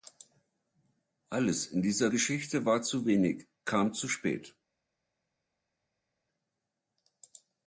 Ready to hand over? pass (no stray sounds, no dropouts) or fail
pass